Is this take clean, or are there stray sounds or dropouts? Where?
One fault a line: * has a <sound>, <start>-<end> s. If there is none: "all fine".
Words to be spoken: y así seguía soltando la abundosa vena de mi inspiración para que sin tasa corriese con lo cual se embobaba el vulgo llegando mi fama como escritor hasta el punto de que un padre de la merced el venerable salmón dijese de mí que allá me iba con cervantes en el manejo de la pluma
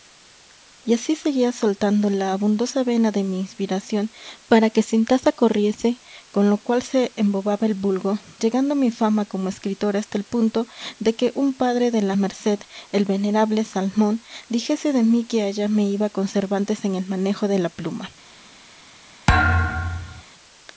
* has a thud, 19.3-20.2 s